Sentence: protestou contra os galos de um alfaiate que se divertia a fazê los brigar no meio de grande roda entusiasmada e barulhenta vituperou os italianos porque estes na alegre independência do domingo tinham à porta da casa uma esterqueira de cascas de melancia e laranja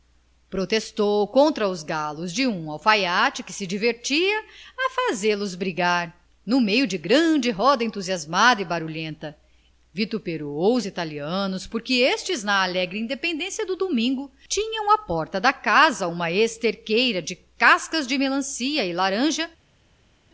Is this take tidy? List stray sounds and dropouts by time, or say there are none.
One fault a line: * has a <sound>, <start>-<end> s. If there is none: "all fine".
all fine